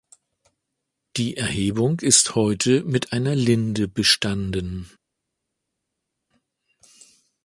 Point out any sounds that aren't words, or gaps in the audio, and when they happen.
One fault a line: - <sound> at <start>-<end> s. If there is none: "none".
none